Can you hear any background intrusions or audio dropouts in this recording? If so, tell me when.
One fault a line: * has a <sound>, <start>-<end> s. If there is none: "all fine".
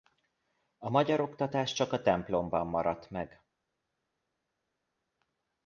all fine